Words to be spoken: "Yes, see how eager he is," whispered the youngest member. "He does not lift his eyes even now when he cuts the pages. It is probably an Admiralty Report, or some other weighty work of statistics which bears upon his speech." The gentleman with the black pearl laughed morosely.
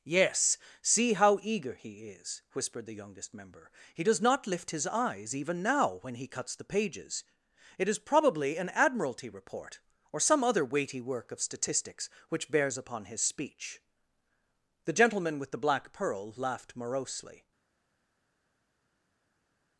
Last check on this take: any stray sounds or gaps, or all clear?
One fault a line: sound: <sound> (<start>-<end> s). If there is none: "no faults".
no faults